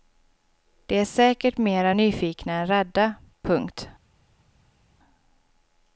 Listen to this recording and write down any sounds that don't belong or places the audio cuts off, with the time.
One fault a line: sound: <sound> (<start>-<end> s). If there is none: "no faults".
no faults